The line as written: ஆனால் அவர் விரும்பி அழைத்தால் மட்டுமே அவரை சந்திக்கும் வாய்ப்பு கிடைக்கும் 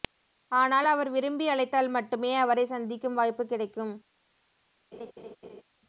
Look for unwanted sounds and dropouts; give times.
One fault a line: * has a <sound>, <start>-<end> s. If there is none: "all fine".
* has a laugh, 4.9-5.6 s